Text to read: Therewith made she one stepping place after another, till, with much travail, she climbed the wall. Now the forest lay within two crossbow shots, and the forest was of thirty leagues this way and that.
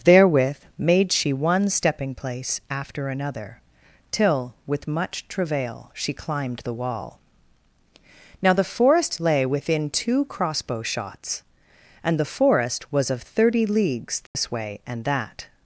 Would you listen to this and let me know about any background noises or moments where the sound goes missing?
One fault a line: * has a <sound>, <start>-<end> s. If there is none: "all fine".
* has a dropout, 14.3-14.4 s